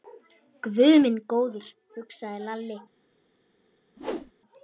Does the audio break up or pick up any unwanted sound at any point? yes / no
yes